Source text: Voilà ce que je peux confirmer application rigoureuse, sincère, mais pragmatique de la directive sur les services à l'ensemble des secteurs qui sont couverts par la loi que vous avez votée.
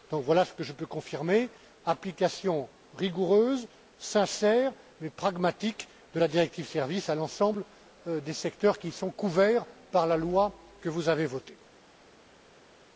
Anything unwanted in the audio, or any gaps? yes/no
no